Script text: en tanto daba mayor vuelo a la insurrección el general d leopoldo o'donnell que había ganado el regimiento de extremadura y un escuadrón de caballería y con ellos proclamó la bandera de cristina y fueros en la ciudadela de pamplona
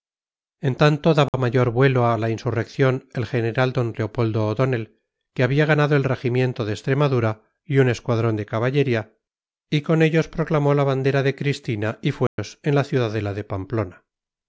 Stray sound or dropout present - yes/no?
yes